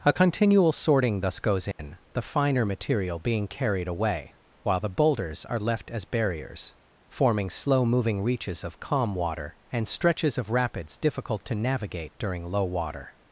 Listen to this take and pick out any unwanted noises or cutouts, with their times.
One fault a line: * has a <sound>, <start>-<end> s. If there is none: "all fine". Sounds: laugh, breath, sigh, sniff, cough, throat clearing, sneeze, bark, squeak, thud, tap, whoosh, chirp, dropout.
* has a dropout, 1.7-1.8 s